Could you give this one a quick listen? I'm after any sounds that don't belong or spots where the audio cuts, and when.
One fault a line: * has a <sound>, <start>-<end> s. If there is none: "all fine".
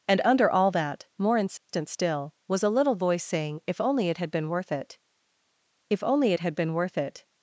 * has a dropout, 1.6-1.7 s